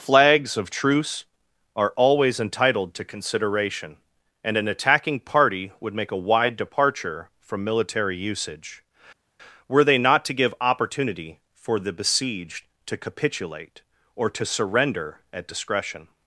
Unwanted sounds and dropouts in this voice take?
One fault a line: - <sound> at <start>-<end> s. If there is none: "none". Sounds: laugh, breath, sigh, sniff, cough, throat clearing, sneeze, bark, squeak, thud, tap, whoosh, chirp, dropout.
none